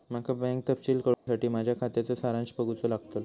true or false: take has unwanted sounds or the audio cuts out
true